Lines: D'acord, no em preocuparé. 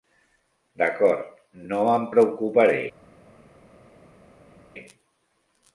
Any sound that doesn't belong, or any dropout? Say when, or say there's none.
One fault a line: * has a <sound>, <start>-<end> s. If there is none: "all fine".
all fine